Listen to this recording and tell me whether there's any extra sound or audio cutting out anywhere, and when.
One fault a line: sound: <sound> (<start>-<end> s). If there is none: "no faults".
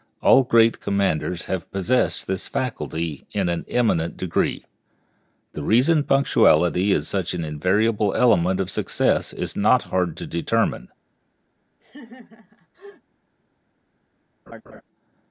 sound: laugh (11.8-13.0 s)
sound: laugh (14.5-14.8 s)